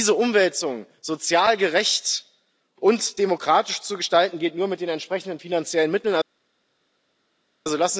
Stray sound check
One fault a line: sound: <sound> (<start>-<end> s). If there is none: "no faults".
no faults